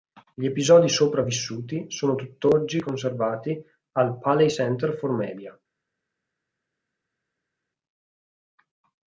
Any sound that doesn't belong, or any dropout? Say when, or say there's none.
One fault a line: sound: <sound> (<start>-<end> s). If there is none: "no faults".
no faults